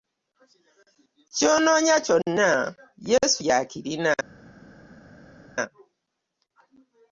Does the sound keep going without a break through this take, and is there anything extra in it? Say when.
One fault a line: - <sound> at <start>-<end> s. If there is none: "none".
none